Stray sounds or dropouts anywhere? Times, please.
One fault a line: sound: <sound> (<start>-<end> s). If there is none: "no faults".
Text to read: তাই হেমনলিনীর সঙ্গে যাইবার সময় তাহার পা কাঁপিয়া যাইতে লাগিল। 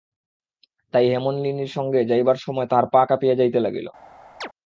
sound: chirp (4.4-4.5 s)